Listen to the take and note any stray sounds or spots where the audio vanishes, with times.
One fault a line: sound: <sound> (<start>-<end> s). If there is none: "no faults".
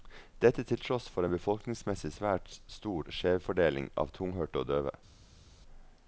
no faults